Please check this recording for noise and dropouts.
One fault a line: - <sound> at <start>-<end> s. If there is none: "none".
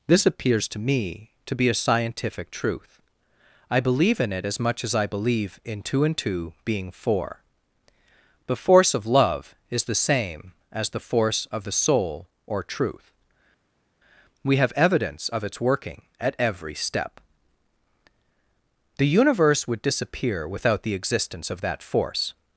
none